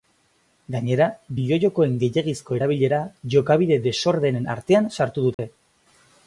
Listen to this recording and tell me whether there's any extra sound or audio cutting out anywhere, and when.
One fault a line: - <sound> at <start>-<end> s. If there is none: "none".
- dropout at 5.3-5.4 s